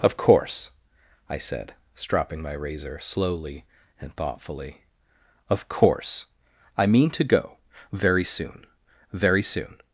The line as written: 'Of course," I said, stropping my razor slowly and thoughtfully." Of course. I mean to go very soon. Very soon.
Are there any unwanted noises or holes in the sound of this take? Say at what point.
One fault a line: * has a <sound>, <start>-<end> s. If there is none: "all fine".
all fine